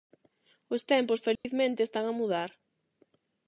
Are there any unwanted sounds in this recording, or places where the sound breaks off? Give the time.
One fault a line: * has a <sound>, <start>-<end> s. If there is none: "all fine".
* has a dropout, 1.4-1.4 s